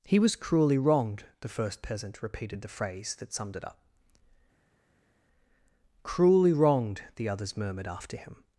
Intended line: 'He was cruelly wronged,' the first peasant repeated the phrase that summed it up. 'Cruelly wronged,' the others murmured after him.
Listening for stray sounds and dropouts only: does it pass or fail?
pass